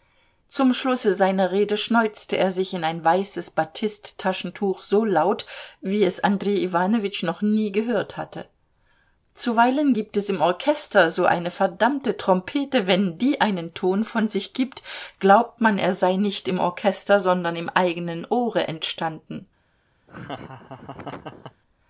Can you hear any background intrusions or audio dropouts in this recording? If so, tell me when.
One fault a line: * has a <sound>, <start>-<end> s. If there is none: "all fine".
* has a laugh, 20.1-21.6 s